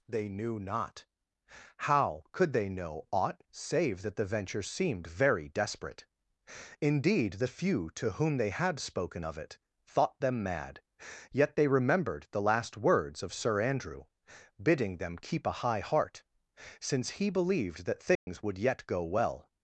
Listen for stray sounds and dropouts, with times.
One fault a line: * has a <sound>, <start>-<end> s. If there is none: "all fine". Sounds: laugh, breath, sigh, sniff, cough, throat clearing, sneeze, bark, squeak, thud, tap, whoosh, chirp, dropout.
* has a dropout, 18.1-18.3 s